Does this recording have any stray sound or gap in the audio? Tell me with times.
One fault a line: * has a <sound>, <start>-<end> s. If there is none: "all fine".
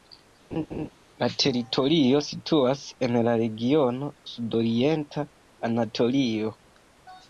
* has a laugh, 0.5-0.9 s